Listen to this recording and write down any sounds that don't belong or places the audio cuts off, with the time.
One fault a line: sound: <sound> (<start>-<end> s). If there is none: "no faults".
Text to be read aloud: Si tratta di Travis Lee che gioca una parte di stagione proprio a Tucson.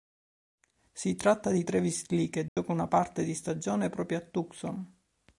sound: dropout (2.5-2.6 s)